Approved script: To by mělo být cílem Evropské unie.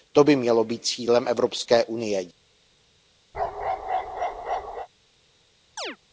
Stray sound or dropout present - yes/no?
yes